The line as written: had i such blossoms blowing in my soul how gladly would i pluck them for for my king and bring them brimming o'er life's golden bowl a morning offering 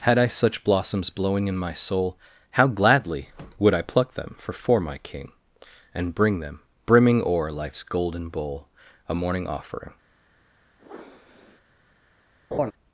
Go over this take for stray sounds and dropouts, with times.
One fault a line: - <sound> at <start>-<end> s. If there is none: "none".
- sniff at 10.8-11.6 s
- laugh at 12.5-12.7 s